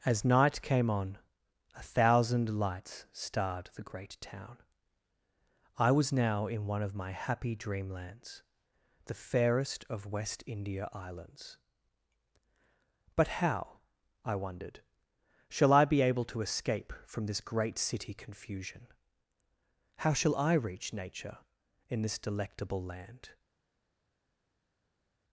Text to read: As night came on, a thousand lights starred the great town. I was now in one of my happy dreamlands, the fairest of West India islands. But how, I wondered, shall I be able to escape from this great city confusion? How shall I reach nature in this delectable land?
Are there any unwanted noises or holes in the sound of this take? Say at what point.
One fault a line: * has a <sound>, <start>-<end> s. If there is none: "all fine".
all fine